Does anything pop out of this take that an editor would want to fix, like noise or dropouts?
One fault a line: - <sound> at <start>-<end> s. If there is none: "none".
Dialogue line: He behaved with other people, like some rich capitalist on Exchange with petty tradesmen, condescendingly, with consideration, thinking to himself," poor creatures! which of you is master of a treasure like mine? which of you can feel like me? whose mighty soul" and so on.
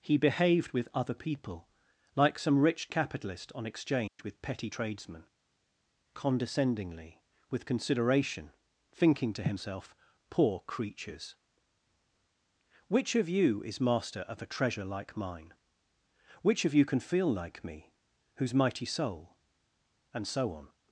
- dropout at 4.1-4.2 s